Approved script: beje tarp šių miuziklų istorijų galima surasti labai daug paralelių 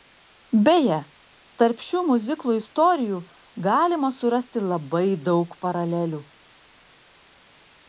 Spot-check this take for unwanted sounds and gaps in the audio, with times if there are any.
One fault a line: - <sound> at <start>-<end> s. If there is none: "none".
none